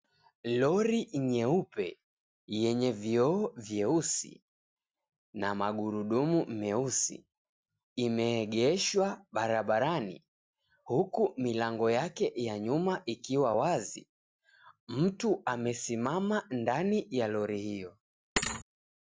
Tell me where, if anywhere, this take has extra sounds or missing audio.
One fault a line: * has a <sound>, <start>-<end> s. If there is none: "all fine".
* has a thud, 18.4-18.6 s